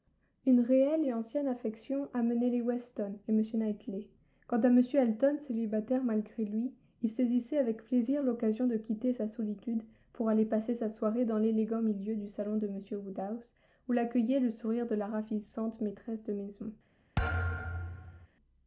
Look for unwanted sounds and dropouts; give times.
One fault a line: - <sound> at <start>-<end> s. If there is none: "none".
- thud at 17.2-18.3 s